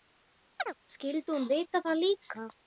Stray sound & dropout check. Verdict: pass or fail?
fail